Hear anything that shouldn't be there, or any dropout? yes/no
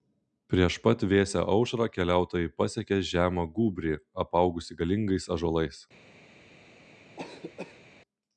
yes